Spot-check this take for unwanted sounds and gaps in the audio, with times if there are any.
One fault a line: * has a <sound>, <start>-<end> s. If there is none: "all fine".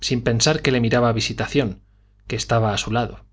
all fine